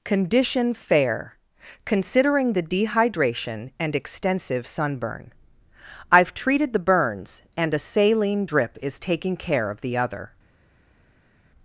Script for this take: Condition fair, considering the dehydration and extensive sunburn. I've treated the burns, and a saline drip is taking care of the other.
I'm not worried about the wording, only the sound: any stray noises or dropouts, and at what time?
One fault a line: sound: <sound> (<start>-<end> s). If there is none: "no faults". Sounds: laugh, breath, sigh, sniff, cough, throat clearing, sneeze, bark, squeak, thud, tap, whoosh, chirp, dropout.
no faults